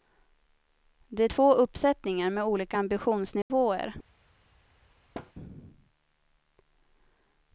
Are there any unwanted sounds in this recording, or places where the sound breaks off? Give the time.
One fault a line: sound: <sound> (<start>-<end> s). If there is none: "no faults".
sound: dropout (3.4-3.5 s)
sound: thud (5.1-5.3 s)